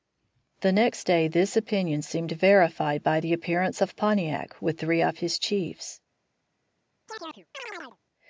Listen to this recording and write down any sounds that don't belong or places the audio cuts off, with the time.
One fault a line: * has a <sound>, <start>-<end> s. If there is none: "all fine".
* has a chirp, 7.1-8.0 s